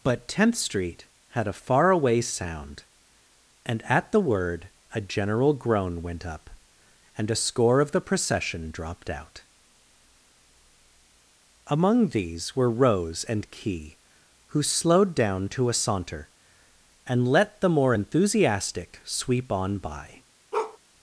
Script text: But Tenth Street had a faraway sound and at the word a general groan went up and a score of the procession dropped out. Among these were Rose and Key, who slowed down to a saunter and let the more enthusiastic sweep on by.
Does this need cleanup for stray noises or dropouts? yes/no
yes